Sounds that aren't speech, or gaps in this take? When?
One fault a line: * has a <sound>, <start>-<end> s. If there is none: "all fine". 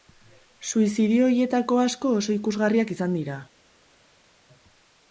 all fine